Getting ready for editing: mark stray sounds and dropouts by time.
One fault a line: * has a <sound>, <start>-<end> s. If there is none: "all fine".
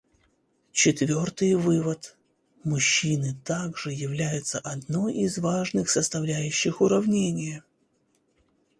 all fine